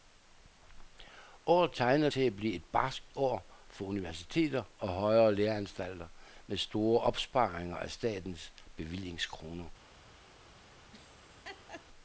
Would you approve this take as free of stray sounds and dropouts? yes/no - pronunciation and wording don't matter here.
no